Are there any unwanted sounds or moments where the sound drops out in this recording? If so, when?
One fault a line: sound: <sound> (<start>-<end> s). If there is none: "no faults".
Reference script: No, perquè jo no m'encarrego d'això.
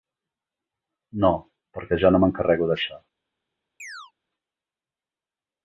sound: chirp (3.8-4.1 s)